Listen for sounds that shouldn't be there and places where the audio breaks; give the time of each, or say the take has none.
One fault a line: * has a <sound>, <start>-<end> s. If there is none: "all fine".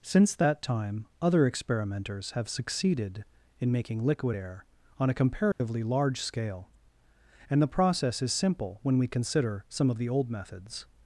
* has a dropout, 5.5-5.6 s